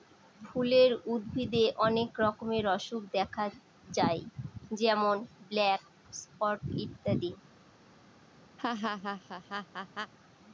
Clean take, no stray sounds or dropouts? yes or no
no